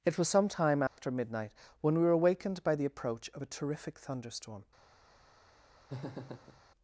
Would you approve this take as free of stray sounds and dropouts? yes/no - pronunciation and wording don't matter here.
no